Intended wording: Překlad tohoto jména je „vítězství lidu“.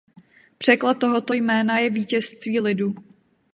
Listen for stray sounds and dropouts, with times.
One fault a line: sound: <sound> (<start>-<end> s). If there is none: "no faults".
no faults